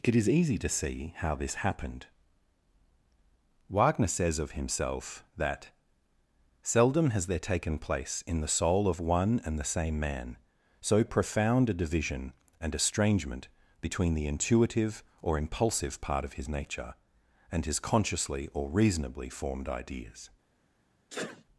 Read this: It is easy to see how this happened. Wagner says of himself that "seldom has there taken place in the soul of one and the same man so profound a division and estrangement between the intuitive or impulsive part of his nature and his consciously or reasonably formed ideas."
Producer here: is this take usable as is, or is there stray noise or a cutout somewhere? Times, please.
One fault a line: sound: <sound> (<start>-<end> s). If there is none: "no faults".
sound: sneeze (21.1-21.4 s)